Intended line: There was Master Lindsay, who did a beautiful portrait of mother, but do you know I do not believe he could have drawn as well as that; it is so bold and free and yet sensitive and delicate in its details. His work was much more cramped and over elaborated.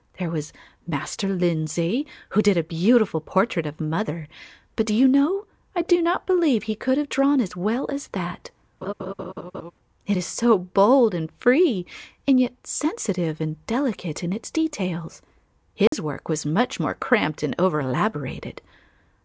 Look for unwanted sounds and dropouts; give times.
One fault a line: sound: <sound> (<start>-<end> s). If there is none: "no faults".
sound: laugh (8.8-9.7 s)
sound: dropout (15.9-15.9 s)